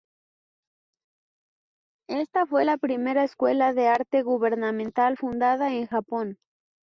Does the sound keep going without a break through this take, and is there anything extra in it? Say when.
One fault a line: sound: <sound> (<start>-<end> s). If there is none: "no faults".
no faults